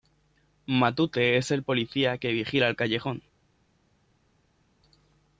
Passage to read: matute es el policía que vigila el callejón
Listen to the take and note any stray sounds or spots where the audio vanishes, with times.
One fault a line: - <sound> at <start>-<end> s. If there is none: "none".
none